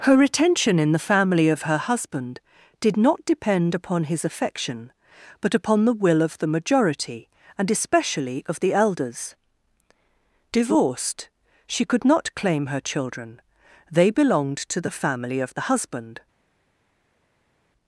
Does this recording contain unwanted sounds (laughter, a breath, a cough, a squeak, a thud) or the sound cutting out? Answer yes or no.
no